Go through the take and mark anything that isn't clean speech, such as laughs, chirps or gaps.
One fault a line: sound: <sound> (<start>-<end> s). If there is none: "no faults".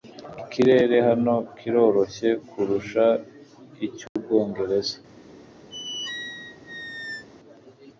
sound: dropout (4.1-4.2 s)
sound: squeak (5.7-7.3 s)